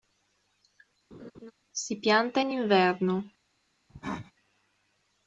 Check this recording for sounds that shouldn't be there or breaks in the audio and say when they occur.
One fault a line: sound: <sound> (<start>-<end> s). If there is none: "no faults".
sound: laugh (1.1-1.5 s)
sound: cough (3.9-4.3 s)